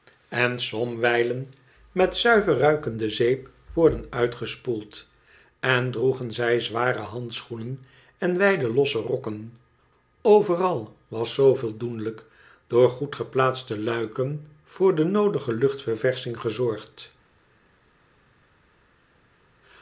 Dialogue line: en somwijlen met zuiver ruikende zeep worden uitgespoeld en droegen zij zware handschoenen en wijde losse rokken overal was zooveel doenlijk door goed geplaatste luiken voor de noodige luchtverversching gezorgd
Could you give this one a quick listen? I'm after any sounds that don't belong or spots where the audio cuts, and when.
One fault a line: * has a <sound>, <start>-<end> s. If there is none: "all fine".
all fine